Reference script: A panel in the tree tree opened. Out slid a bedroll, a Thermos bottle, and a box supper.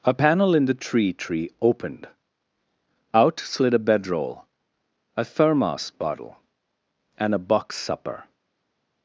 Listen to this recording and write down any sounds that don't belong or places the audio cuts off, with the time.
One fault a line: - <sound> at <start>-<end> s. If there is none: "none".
none